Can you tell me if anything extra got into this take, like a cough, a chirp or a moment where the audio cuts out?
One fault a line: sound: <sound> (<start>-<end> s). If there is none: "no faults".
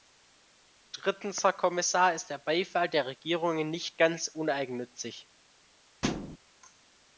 sound: thud (6.0-6.4 s)